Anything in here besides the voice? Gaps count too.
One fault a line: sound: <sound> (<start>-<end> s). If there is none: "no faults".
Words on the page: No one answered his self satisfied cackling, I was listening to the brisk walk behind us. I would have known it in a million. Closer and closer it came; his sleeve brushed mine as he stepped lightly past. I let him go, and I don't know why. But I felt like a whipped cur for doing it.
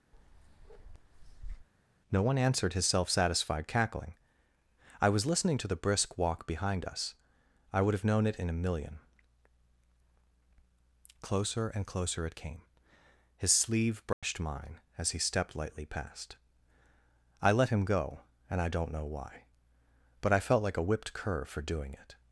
sound: bark (0.1-1.7 s)
sound: dropout (14.1-14.2 s)